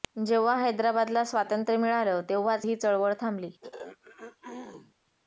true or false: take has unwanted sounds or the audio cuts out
true